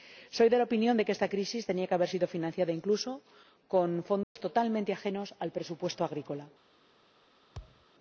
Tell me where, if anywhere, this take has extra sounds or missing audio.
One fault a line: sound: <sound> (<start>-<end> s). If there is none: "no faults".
sound: dropout (4.2-4.4 s)
sound: thud (7.5-7.9 s)